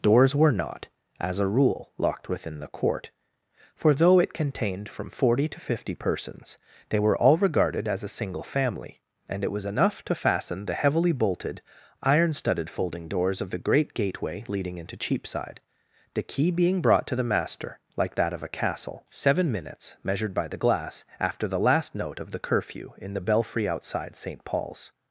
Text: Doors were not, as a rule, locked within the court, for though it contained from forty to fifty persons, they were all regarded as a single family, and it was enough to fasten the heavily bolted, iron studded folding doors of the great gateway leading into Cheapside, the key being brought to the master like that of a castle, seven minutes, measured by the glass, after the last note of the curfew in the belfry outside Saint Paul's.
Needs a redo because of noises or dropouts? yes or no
no